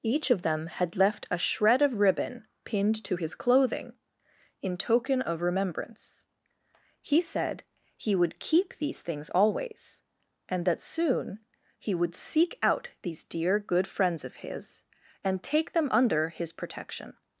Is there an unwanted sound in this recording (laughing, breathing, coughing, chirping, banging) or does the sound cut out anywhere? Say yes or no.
no